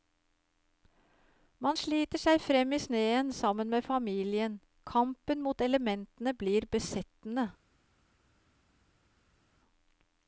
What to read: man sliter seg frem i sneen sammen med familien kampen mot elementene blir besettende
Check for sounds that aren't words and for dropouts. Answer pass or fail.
pass